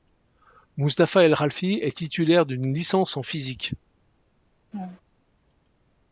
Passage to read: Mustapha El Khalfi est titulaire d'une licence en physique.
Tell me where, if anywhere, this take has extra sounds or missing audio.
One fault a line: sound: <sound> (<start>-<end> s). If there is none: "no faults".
sound: laugh (4.7-5.0 s)